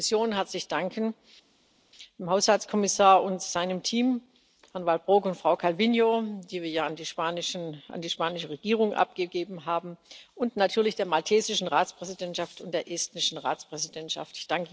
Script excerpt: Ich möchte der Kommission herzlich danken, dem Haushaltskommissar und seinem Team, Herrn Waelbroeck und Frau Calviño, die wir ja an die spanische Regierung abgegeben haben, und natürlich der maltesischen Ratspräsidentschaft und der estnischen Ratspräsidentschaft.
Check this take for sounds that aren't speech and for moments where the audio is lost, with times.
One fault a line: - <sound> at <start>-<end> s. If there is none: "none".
none